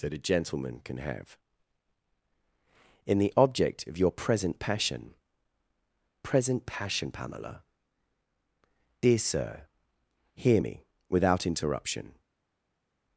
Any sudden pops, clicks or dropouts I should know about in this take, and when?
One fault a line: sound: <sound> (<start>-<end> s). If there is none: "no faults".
no faults